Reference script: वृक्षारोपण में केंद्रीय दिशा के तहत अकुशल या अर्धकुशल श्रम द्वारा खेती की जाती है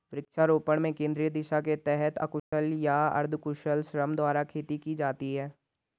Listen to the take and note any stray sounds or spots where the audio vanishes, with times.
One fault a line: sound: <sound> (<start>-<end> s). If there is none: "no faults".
sound: dropout (2.4-2.5 s)